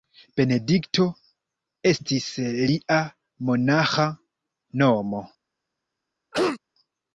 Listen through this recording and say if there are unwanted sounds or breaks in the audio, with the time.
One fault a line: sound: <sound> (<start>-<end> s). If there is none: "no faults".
sound: cough (6.3-6.6 s)